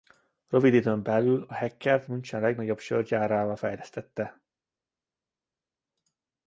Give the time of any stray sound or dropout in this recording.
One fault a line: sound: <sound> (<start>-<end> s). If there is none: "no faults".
no faults